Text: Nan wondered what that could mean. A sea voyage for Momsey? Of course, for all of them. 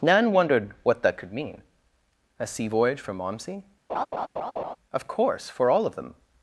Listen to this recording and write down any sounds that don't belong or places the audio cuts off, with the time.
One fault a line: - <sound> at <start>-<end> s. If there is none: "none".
- laugh at 3.9-4.8 s